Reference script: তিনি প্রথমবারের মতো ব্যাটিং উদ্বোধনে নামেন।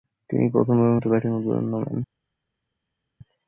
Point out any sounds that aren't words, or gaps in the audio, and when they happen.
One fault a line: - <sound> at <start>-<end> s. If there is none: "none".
none